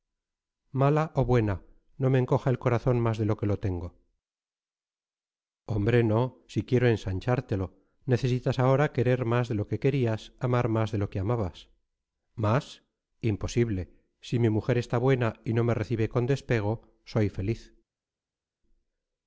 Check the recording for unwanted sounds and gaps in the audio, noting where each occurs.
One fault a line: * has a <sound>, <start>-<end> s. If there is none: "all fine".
all fine